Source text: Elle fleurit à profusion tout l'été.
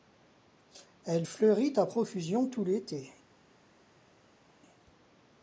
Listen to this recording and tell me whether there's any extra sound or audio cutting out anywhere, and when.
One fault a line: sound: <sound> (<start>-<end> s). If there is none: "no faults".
no faults